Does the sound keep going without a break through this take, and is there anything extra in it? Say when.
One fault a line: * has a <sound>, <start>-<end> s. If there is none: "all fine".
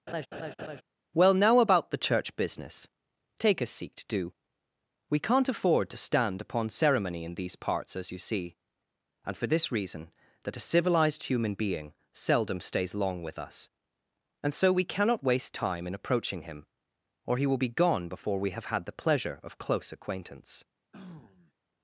* has a laugh, 0.1-0.8 s
* has a throat clearing, 20.9-21.5 s